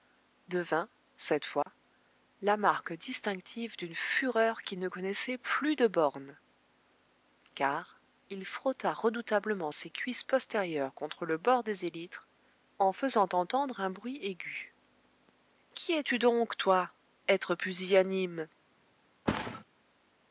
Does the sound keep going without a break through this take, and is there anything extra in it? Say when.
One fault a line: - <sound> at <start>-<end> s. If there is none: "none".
- dropout at 1.6-1.7 s
- thud at 19.3-19.6 s